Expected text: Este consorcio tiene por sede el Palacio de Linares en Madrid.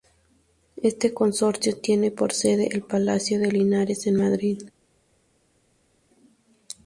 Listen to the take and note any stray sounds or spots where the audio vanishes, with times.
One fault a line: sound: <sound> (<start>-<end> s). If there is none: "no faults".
no faults